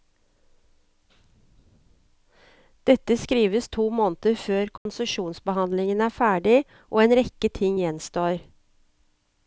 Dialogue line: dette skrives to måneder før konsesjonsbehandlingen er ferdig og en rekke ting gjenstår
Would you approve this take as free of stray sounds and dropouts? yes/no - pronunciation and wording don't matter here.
no